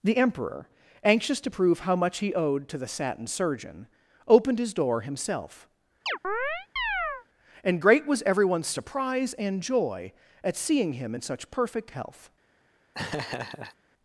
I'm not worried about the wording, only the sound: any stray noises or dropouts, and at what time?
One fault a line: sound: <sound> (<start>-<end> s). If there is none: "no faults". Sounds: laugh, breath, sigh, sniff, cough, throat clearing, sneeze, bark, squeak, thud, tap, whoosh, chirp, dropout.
sound: chirp (6.1-7.3 s)
sound: laugh (12.9-13.8 s)